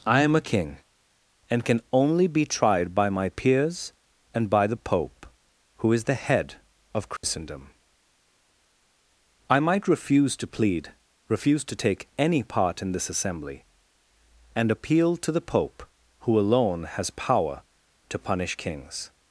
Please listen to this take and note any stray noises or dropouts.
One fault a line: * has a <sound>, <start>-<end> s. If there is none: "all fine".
* has a dropout, 7.2-7.2 s